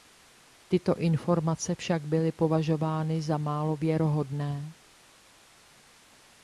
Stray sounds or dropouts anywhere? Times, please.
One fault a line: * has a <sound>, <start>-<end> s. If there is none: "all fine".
all fine